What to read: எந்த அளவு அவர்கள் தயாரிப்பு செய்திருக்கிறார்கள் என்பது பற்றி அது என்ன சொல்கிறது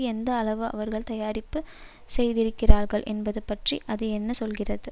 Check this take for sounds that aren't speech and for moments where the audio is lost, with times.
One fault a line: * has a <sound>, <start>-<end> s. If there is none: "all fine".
all fine